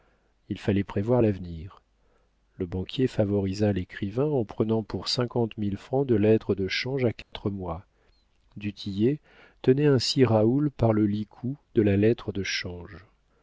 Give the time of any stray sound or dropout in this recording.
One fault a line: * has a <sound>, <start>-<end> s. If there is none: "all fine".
* has a dropout, 7.2-7.3 s